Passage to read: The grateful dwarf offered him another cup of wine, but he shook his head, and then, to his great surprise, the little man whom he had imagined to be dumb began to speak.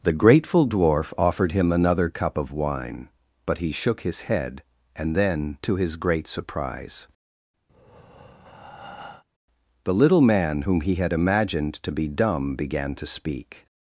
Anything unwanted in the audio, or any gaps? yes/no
yes